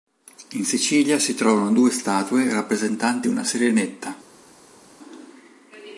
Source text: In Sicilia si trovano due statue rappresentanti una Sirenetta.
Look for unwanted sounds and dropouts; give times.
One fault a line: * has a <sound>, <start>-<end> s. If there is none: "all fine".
all fine